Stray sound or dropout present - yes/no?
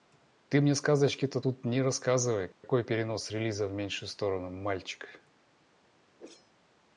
yes